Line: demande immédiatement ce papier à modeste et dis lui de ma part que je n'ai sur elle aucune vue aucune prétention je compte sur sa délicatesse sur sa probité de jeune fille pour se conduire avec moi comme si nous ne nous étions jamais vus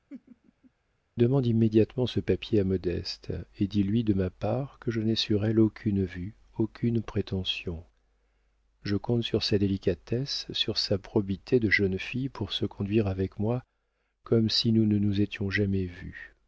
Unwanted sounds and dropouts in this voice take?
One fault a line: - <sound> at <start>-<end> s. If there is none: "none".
- laugh at 0.1-0.7 s